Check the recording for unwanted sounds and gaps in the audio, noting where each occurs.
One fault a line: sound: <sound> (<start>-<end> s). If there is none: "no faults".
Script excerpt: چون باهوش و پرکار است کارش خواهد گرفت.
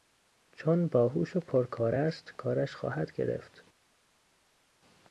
no faults